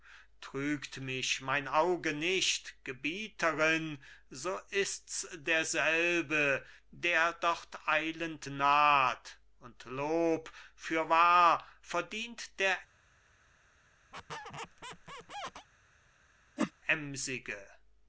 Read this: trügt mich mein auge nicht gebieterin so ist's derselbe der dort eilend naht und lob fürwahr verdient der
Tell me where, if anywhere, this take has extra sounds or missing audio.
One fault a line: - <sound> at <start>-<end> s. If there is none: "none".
- squeak at 14.1-15.7 s
- whoosh at 16.6-16.7 s